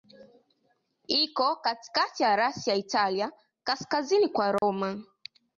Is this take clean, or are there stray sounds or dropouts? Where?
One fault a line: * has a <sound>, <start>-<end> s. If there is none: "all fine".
* has a dropout, 4.6-4.6 s